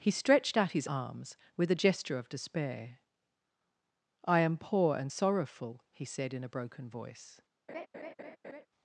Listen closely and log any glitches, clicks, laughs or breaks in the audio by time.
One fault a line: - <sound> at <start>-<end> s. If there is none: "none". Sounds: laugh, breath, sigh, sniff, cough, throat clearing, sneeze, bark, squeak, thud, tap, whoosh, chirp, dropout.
- laugh at 7.7-8.7 s